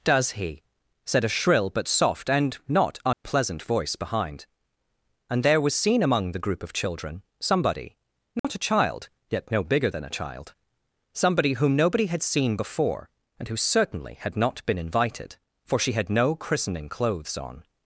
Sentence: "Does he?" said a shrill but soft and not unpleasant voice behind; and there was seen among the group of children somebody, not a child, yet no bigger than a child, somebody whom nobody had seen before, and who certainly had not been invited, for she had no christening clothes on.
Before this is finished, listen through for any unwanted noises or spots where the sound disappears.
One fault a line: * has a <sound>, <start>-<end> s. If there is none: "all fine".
* has a dropout, 3.1-3.2 s
* has a dropout, 8.4-8.4 s